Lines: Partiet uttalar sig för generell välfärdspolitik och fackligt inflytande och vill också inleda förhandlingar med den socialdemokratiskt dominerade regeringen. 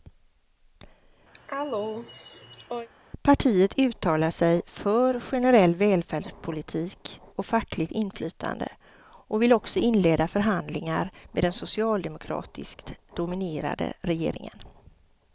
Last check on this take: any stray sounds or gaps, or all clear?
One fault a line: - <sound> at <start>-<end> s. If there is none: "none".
- cough at 1.3-2.9 s